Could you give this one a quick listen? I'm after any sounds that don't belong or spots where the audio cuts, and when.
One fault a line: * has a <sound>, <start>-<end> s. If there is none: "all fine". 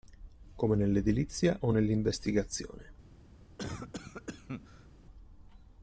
* has a cough, 3.6-4.9 s